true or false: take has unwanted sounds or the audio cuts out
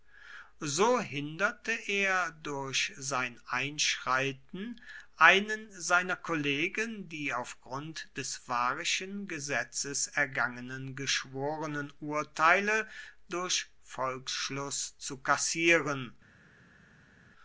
false